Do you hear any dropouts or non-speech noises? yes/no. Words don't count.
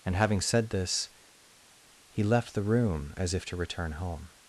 no